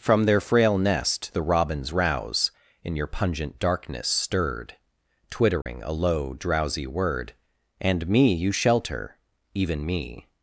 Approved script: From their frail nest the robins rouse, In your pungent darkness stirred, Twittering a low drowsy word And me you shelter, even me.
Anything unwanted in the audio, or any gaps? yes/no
yes